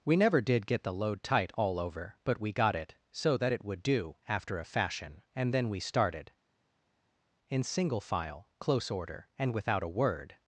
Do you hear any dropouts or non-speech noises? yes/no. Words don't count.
no